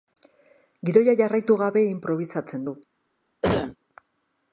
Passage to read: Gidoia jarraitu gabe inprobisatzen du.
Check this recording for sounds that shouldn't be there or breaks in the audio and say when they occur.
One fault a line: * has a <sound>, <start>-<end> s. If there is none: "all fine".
* has a cough, 3.4-3.8 s